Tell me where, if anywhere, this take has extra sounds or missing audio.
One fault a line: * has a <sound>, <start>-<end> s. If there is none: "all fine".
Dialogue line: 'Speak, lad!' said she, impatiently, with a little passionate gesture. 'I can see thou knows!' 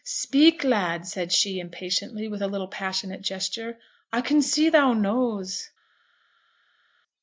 all fine